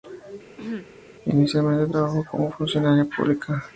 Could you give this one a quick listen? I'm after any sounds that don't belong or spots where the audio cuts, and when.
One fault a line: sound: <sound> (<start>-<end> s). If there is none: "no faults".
sound: throat clearing (0.6-0.9 s)